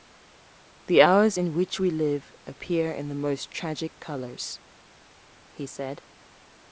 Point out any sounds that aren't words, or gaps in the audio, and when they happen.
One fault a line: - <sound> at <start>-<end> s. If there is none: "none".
none